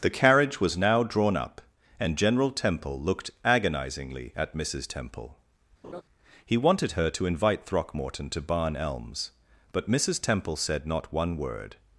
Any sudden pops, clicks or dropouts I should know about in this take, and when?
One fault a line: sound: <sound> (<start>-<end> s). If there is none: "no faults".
sound: laugh (5.8-6.0 s)